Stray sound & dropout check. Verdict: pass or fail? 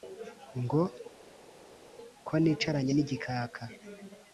pass